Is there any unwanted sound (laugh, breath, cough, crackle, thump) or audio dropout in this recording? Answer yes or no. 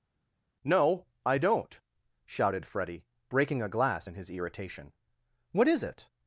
no